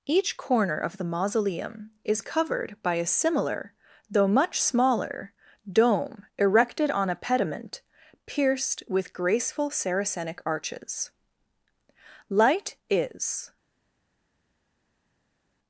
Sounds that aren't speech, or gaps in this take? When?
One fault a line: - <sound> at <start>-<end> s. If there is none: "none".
none